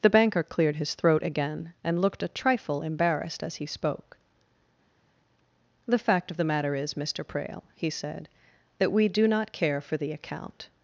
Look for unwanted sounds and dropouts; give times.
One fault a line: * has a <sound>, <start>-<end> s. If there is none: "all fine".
all fine